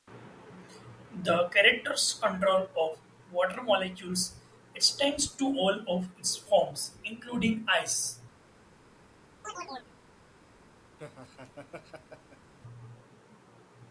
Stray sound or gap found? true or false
true